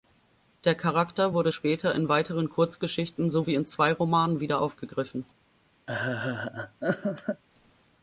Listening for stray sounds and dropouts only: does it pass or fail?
fail